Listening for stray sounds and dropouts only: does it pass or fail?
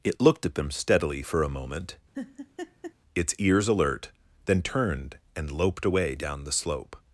fail